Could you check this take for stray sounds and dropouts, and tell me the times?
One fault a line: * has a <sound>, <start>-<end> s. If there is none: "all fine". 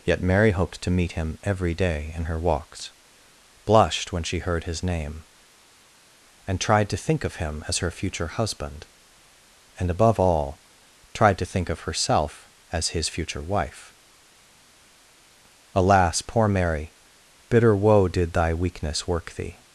all fine